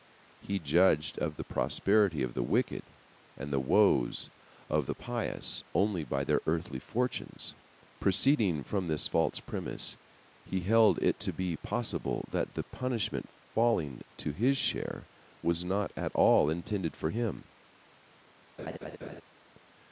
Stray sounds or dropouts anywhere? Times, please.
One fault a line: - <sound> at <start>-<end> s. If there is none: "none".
- laugh at 18.6-19.2 s